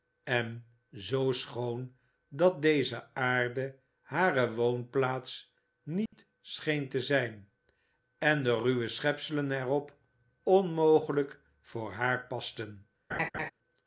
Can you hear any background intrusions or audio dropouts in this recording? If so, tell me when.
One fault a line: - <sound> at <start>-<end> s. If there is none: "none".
- dropout at 6.1-6.1 s
- laugh at 13.1-13.5 s